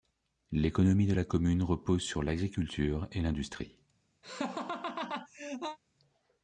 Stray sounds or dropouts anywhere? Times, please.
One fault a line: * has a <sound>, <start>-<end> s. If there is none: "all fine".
* has a laugh, 4.2-5.8 s